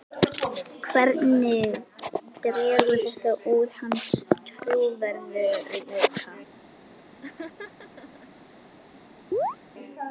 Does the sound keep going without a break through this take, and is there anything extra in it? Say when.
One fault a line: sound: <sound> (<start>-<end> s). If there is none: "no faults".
sound: laugh (7.2-8.3 s)
sound: chirp (9.3-9.6 s)